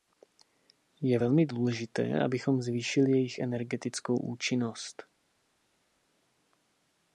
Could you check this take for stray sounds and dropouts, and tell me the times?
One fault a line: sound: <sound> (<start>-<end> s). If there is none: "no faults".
no faults